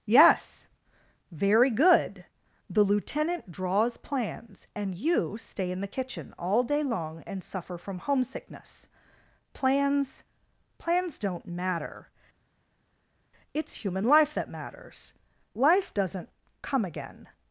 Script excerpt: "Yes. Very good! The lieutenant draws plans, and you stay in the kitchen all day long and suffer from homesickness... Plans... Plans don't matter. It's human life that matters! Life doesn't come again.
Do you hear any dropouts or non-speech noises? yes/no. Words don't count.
no